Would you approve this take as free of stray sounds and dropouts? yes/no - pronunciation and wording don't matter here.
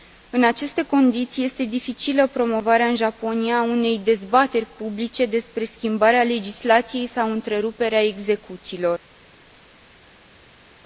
yes